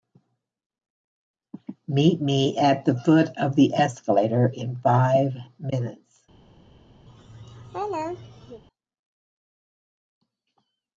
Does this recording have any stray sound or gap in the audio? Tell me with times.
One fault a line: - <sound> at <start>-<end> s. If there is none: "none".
- laugh at 7.1-8.6 s